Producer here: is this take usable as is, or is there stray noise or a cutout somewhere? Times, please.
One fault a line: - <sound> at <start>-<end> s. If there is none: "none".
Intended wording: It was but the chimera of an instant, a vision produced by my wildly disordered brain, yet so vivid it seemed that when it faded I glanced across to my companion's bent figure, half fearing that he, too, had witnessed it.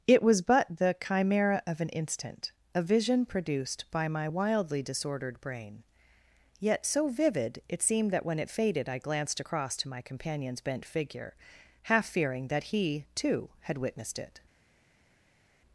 none